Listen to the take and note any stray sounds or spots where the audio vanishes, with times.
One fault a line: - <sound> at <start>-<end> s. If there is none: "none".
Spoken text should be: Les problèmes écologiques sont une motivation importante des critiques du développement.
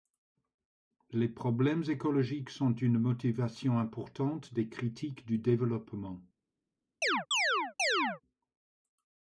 - chirp at 7.0-8.2 s